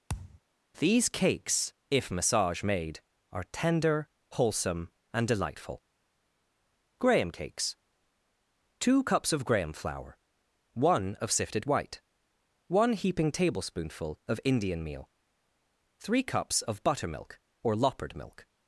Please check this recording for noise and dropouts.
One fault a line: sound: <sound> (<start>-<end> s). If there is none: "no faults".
sound: thud (0.1-0.4 s)